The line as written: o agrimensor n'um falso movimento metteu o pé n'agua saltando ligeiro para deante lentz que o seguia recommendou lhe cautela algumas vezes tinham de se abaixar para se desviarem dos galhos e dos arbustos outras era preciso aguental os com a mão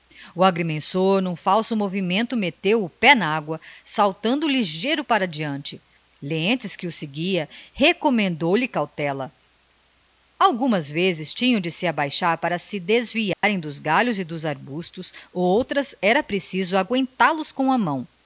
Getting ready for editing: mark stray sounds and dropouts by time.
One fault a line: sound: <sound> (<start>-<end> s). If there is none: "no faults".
sound: dropout (13.3-13.4 s)